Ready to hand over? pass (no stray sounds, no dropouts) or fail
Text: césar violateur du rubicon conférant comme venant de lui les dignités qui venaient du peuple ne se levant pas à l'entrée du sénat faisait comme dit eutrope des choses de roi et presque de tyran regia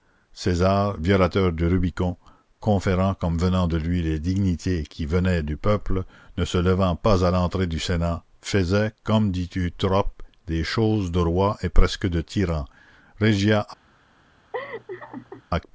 fail